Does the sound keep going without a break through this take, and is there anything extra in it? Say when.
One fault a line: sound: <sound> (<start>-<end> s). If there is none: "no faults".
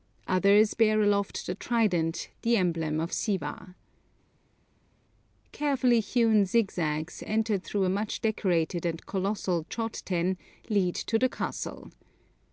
no faults